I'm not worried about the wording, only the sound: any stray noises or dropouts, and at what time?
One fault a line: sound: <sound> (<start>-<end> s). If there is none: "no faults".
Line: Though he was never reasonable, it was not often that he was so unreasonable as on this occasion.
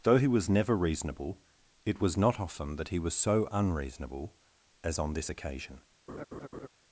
sound: laugh (6.1-6.7 s)